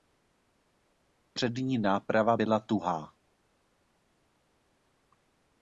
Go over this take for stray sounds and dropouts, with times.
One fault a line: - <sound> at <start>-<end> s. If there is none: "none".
none